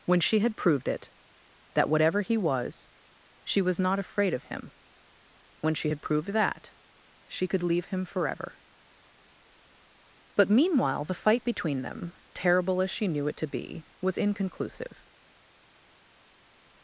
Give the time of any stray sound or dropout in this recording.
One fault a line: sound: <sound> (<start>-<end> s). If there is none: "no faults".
no faults